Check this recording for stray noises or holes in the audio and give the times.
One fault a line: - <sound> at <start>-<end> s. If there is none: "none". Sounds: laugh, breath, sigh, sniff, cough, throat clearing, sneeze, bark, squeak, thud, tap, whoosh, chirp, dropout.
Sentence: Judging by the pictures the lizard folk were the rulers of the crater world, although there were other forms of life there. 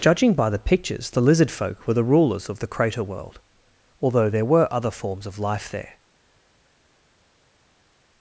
none